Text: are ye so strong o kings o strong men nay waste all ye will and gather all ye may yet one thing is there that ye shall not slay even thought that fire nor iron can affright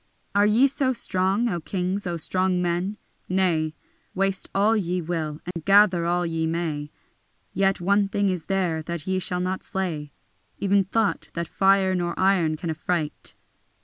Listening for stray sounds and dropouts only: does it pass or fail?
fail